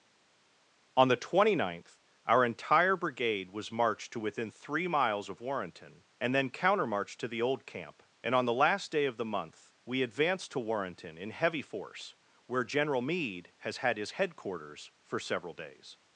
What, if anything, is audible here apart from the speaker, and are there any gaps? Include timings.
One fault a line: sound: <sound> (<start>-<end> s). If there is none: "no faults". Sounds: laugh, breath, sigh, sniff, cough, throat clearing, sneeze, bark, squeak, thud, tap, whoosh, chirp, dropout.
no faults